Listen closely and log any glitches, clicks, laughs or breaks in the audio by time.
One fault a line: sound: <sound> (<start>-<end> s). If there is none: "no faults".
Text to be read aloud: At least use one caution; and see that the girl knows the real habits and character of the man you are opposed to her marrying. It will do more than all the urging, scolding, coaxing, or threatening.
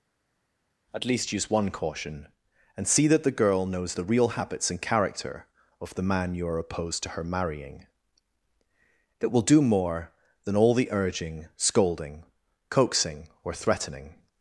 no faults